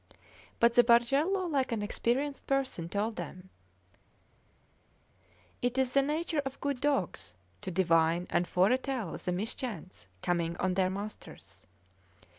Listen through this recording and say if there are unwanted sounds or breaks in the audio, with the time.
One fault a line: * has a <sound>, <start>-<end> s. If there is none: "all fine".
all fine